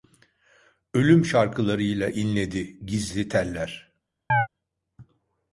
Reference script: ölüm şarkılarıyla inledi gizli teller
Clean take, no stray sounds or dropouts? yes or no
no